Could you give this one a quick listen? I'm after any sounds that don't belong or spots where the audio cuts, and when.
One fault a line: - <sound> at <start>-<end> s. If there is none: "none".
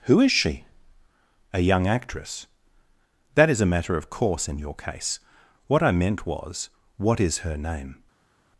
none